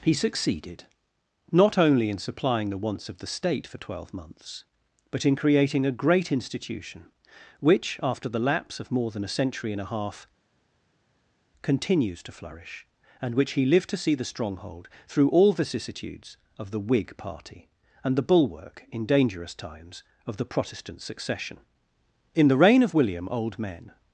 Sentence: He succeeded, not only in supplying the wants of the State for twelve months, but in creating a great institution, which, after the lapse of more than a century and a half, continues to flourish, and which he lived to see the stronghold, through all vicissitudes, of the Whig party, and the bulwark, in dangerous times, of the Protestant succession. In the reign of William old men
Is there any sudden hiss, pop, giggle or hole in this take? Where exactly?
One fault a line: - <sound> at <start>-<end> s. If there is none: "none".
none